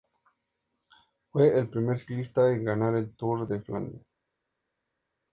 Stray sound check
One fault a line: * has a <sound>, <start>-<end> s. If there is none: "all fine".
all fine